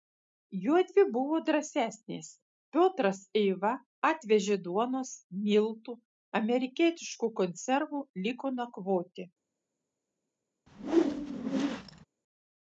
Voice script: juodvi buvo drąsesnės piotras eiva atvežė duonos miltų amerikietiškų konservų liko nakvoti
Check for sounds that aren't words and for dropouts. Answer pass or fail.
fail